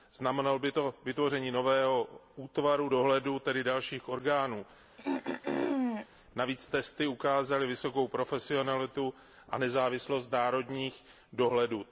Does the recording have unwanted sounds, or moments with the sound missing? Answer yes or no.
yes